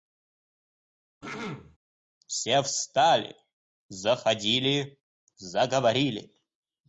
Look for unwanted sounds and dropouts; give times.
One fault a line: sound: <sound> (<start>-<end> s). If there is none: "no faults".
sound: throat clearing (1.2-1.8 s)